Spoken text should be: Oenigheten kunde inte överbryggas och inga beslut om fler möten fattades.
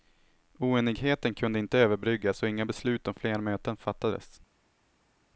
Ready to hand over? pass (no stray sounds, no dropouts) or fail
pass